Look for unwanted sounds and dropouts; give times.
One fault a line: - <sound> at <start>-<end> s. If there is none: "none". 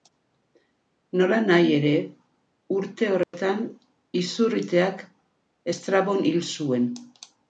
- dropout at 3.2-3.3 s